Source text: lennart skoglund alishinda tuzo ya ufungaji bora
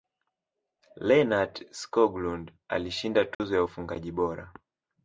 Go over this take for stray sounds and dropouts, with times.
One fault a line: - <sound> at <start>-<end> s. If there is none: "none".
- dropout at 3.3-3.4 s